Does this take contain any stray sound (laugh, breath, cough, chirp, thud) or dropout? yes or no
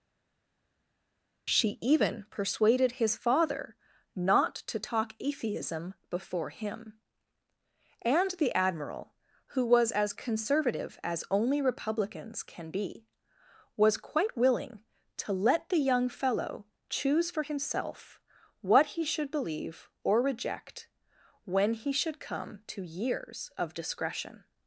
no